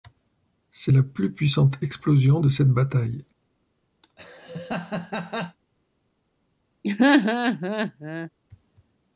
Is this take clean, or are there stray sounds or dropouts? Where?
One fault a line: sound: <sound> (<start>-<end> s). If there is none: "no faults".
sound: laugh (4.0-5.6 s)
sound: laugh (6.8-8.3 s)